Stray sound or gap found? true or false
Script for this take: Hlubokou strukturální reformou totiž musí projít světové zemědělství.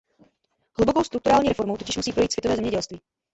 false